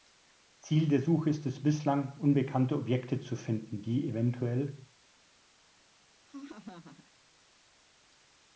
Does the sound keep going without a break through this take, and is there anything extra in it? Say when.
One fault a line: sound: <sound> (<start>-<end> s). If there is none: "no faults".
sound: laugh (6.2-7.1 s)